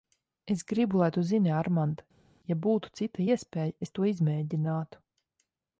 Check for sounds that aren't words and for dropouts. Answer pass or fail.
pass